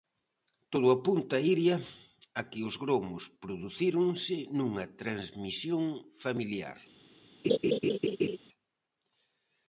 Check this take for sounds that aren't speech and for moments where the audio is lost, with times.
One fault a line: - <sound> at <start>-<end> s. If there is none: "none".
- laugh at 7.4-8.4 s